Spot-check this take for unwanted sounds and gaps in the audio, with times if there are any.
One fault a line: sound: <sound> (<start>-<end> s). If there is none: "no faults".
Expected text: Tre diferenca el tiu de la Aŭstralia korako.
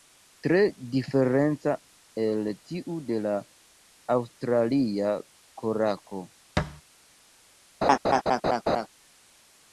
sound: thud (6.6-6.8 s)
sound: laugh (7.8-8.9 s)